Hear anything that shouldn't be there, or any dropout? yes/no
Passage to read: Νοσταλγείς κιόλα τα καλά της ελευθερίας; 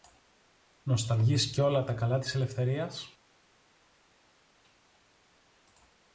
no